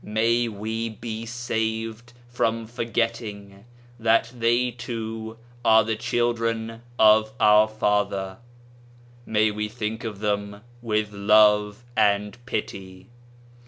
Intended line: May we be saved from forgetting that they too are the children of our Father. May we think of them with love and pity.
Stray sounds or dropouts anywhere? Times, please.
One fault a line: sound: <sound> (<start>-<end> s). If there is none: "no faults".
no faults